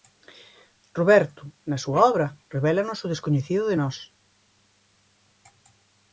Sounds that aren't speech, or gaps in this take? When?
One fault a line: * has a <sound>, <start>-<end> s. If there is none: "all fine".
all fine